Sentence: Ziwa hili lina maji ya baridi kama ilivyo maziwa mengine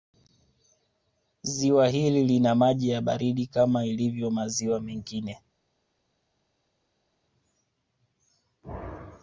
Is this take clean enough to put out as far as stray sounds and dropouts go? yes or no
yes